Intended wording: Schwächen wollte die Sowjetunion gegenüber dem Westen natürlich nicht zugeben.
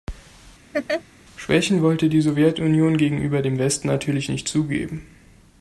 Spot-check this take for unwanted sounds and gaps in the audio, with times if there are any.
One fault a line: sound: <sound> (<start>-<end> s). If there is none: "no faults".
sound: laugh (0.7-1.0 s)